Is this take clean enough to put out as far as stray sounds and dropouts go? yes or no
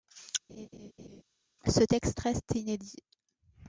no